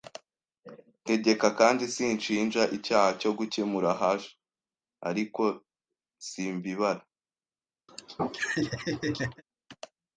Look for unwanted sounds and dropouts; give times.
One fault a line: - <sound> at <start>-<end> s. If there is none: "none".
- laugh at 7.9-9.4 s